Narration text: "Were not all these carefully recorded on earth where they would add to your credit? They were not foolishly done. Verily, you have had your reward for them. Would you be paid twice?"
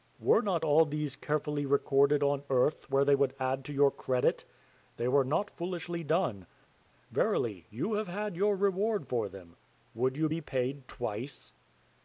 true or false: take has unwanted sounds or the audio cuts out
false